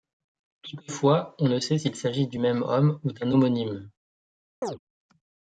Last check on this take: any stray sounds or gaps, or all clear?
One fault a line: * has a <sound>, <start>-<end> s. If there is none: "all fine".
* has a chirp, 4.6-4.8 s